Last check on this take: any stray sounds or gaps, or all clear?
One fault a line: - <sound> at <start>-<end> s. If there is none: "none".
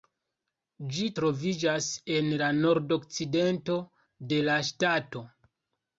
none